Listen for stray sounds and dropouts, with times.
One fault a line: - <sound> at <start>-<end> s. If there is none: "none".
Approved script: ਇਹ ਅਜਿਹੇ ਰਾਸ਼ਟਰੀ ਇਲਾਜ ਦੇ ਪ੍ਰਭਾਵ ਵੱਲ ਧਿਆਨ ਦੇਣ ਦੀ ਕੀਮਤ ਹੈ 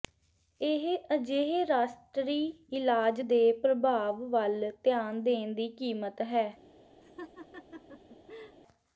- laugh at 7.0-8.6 s